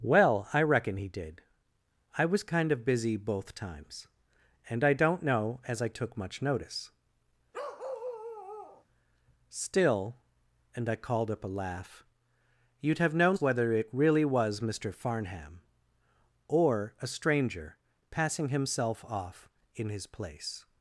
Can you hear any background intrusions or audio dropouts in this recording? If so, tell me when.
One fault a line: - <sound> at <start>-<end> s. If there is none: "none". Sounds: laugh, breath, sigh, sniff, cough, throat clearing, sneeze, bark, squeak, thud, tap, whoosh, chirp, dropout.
- bark at 7.5-8.8 s